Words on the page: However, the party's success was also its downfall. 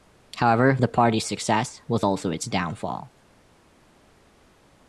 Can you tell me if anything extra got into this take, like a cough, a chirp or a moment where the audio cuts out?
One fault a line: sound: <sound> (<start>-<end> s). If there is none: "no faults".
no faults